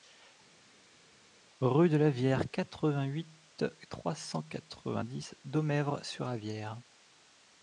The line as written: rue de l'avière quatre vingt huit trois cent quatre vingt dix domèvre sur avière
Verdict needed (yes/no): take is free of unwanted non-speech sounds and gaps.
yes